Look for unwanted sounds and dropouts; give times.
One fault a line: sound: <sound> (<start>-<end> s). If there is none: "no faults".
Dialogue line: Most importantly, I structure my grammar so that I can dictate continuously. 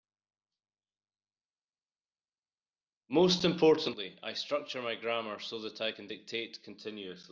no faults